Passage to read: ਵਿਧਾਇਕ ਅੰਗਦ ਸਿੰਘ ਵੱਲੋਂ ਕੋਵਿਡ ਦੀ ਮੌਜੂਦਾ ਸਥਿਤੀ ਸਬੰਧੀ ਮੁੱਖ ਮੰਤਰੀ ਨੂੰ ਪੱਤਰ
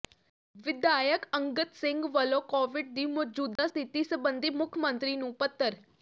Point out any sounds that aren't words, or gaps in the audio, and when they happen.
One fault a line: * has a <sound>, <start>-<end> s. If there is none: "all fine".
* has a dropout, 3.6-3.6 s